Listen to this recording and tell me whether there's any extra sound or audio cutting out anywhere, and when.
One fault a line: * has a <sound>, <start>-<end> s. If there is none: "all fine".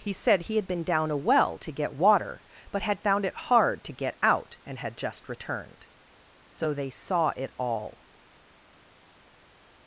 all fine